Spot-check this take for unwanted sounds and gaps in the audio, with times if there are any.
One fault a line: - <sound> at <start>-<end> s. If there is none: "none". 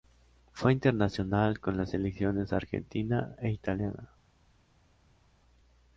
none